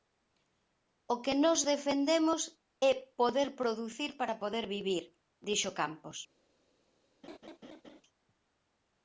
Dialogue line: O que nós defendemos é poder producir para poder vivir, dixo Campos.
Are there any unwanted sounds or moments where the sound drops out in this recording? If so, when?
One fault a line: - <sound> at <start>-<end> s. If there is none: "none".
- laugh at 7.2-8.0 s